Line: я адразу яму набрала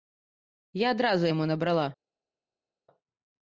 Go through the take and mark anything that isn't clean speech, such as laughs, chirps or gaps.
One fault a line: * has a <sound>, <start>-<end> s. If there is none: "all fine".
all fine